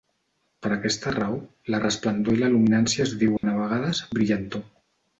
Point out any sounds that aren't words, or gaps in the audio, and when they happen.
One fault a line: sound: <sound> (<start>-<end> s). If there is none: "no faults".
sound: dropout (3.4-3.4 s)